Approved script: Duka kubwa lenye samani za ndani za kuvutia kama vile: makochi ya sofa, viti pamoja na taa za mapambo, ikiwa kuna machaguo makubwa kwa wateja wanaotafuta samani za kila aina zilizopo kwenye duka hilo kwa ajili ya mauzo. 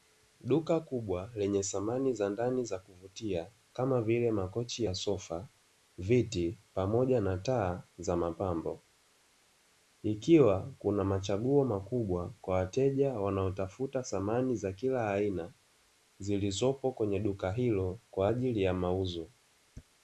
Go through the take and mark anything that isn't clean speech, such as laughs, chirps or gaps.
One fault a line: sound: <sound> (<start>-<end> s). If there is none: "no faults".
no faults